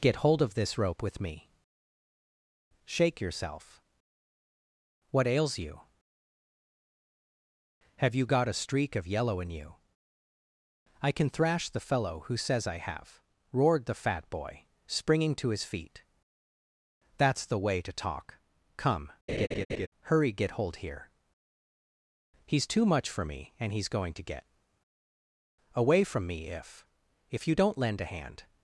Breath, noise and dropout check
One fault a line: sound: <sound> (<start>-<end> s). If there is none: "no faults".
sound: laugh (19.3-19.9 s)